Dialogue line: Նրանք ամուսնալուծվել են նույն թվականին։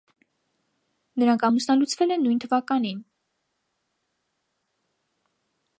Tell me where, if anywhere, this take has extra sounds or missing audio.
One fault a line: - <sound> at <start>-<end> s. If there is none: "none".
none